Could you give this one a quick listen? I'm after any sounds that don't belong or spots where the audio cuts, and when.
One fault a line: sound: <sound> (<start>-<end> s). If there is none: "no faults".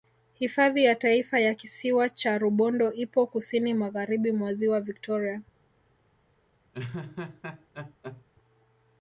sound: laugh (6.7-8.2 s)